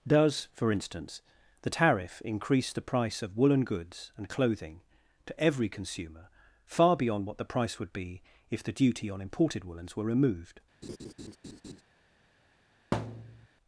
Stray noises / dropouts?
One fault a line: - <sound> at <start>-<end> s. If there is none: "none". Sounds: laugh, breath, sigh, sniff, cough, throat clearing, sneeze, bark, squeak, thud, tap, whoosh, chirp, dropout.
- laugh at 10.8-11.8 s
- thud at 12.9-13.5 s